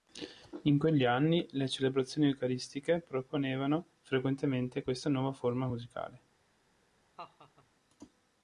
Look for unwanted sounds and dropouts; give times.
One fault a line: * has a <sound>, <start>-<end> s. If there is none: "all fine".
* has a laugh, 7.2-7.7 s